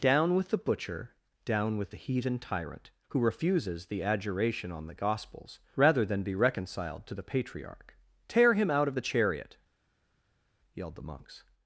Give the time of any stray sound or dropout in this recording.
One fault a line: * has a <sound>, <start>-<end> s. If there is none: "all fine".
all fine